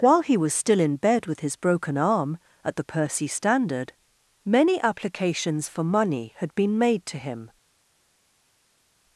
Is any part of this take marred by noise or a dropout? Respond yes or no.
no